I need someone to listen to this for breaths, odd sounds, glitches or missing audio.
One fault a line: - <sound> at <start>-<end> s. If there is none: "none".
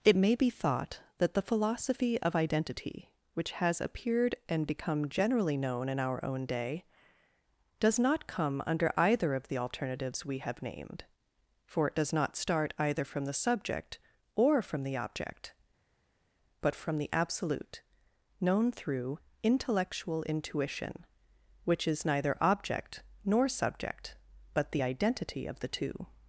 none